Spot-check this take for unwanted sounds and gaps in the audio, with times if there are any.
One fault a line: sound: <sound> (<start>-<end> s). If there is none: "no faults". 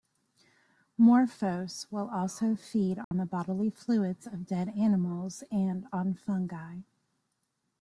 sound: dropout (3.0-3.1 s)